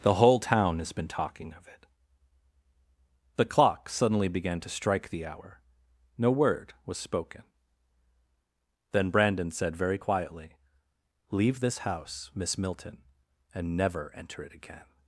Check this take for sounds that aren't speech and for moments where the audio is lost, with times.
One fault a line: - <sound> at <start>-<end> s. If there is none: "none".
none